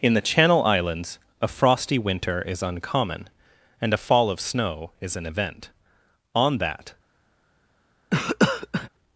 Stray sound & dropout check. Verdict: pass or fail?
fail